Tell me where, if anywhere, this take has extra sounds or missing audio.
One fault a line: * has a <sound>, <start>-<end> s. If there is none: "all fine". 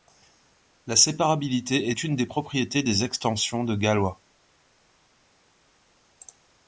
all fine